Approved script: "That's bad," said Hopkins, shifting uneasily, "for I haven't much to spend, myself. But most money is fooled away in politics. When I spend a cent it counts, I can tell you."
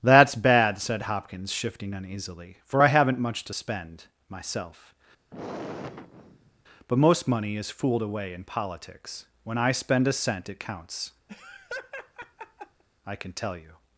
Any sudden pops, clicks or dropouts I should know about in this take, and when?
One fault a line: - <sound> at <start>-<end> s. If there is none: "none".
- sigh at 5.3-6.6 s
- laugh at 11.3-12.8 s